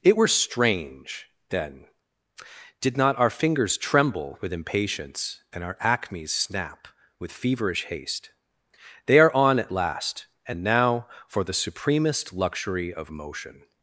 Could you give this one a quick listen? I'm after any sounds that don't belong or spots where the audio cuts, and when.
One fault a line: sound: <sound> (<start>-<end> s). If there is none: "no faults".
no faults